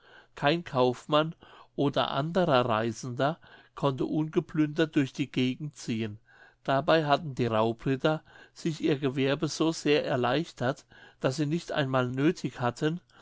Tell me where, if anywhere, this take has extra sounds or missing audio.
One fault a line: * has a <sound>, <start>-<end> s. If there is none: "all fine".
all fine